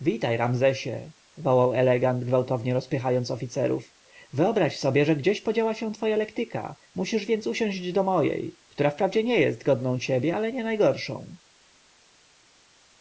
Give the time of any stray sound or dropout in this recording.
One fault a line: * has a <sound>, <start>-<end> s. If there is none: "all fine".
all fine